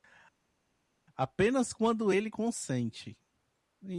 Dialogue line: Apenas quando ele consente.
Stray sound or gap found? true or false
false